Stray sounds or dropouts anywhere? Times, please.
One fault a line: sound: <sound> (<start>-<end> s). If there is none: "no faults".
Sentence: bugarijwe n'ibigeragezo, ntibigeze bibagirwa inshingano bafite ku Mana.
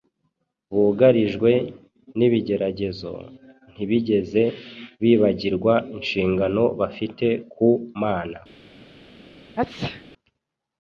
sound: sneeze (9.6-10.0 s)